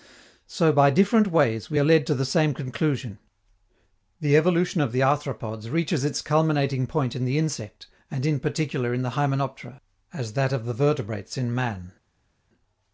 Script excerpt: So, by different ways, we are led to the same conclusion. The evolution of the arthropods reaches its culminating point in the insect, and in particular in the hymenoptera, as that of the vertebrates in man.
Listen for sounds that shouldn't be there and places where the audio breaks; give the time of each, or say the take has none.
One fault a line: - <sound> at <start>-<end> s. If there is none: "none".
none